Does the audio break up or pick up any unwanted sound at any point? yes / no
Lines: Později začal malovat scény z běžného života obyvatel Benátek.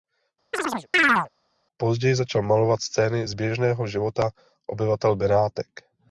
yes